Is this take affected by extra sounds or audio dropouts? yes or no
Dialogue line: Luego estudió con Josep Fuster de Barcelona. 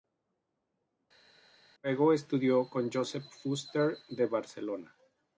no